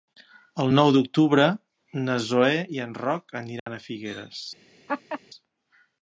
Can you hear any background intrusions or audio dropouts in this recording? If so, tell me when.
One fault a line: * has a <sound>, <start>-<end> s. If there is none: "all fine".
* has a dropout, 3.6-3.7 s
* has a laugh, 4.9-5.2 s